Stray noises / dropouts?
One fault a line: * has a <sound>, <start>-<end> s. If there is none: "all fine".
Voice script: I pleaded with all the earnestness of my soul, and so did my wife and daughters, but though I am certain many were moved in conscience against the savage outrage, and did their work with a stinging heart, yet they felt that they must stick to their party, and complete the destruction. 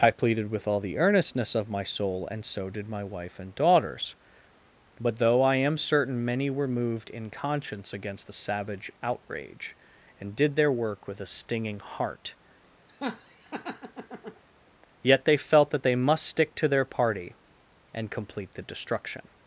* has a laugh, 12.9-14.4 s